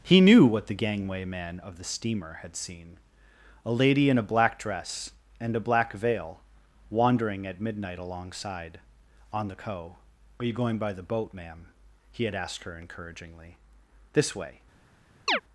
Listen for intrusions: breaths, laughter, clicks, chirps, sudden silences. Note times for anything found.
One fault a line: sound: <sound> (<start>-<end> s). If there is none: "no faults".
sound: chirp (15.3-15.4 s)